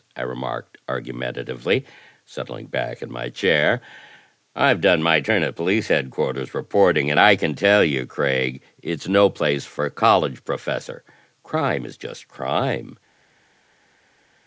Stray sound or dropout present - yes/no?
no